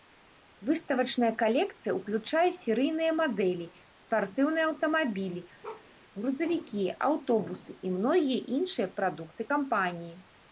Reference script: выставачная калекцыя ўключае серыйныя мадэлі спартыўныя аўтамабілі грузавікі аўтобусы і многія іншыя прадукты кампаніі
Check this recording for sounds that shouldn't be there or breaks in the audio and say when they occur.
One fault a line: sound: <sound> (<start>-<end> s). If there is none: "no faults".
sound: bark (5.6-5.9 s)